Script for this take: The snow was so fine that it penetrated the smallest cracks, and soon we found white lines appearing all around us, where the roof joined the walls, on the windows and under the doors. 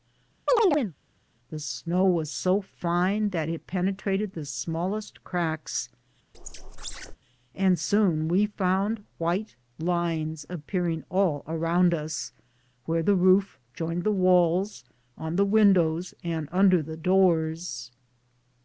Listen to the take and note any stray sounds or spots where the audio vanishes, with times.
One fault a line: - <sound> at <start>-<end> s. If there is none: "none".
- chirp at 0.5-0.9 s
- squeak at 6.3-7.2 s